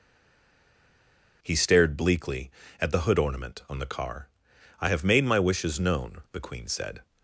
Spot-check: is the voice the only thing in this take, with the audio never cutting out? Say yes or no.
yes